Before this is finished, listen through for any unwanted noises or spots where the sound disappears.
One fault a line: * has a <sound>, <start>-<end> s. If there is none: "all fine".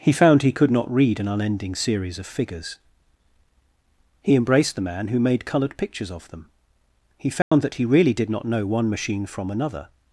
* has a dropout, 7.4-7.5 s